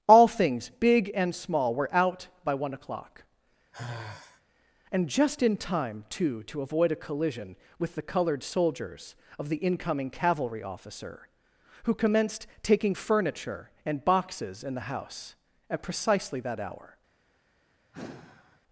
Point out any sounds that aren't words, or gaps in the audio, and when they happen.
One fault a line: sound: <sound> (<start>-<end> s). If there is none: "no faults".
sound: sigh (3.7-4.4 s)
sound: sigh (17.9-18.6 s)